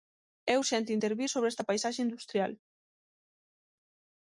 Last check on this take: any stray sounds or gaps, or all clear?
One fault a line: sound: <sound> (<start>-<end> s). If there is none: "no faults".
no faults